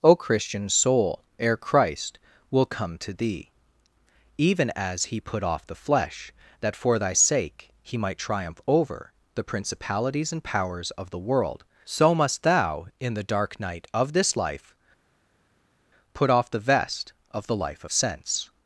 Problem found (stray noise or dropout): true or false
false